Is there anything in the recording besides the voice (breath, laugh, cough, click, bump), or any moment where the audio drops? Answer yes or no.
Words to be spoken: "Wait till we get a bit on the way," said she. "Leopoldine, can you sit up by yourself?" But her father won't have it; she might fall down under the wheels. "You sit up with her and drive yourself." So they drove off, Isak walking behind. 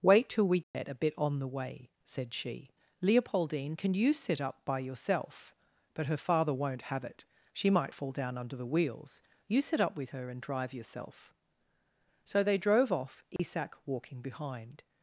yes